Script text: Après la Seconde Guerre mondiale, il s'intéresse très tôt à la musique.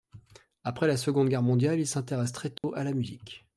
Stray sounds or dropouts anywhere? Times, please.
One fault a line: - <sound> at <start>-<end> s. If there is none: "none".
- dropout at 2.6-2.6 s